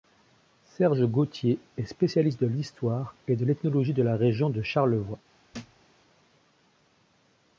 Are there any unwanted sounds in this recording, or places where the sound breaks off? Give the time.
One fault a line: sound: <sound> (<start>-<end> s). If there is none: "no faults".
sound: thud (5.5-5.8 s)